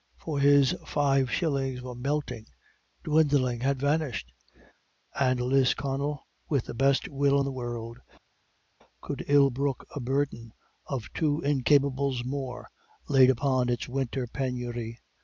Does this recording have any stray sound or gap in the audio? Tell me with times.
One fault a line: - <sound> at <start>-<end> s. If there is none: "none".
none